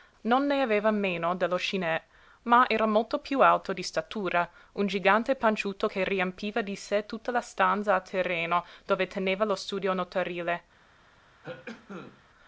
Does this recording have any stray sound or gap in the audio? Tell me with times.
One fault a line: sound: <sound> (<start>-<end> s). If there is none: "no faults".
sound: cough (11.4-12.3 s)